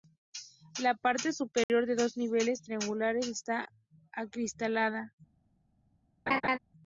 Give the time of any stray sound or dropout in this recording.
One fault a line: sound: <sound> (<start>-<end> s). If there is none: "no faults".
sound: dropout (1.6-1.7 s)
sound: laugh (6.3-6.6 s)